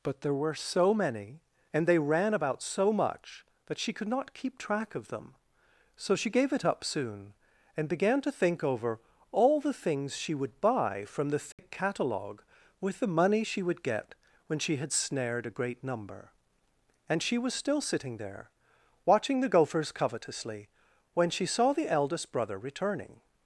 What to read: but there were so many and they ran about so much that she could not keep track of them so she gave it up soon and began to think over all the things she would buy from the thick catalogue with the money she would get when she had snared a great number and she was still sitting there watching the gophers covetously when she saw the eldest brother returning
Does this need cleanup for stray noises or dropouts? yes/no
yes